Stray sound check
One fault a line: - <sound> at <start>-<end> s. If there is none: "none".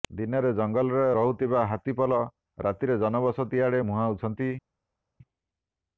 none